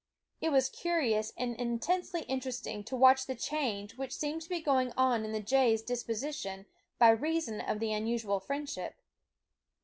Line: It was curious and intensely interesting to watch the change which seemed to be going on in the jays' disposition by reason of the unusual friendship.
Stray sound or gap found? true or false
false